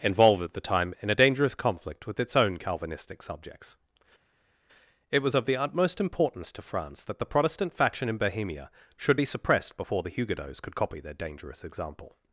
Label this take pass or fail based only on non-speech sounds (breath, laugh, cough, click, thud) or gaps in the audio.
pass